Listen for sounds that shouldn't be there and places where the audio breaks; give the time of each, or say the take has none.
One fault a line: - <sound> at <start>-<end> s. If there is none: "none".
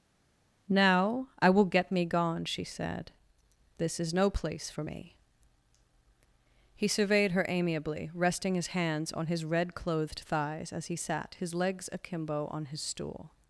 none